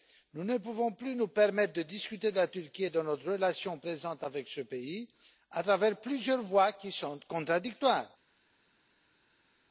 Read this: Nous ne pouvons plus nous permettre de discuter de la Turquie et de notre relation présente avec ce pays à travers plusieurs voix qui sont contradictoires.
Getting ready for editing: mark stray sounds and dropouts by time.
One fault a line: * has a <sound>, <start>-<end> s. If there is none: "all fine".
all fine